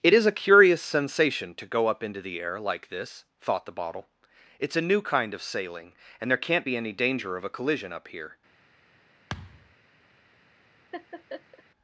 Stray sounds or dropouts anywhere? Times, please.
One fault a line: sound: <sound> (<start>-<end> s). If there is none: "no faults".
sound: thud (9.3-9.8 s)
sound: laugh (10.9-11.6 s)